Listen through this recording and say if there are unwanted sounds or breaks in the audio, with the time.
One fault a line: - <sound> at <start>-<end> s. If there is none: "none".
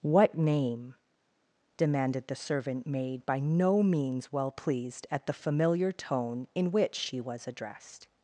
none